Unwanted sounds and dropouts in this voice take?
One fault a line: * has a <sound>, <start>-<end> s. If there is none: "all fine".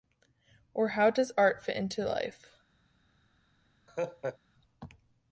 * has a laugh, 3.9-4.4 s